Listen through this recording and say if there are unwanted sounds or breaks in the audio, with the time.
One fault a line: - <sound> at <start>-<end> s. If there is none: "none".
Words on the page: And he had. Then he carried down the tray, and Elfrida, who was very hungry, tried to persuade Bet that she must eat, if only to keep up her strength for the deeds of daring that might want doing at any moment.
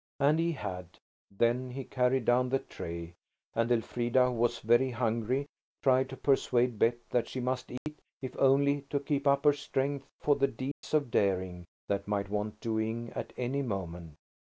- dropout at 7.8-7.9 s
- dropout at 10.7-10.8 s